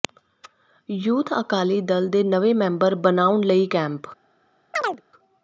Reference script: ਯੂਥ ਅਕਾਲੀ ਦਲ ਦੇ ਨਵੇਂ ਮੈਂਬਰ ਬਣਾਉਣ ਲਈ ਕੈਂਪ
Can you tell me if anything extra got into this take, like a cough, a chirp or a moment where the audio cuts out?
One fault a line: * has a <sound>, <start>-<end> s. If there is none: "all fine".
* has a chirp, 4.7-5.0 s